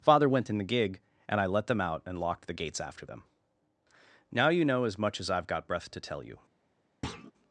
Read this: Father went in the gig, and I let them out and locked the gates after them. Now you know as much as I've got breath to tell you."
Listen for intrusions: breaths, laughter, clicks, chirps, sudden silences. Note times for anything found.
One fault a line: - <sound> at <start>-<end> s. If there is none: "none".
- thud at 7.0-7.3 s